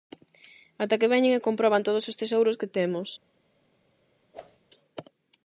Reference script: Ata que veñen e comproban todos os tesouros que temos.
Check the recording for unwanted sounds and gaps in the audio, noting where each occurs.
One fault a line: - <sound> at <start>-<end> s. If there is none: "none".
- whoosh at 4.3-4.6 s